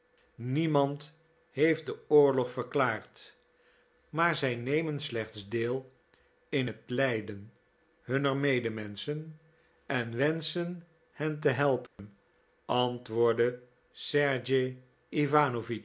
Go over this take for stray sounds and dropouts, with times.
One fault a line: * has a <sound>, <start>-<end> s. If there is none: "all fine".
* has a dropout, 11.9-12.0 s